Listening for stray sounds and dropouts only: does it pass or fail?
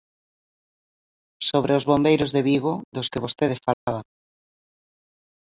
fail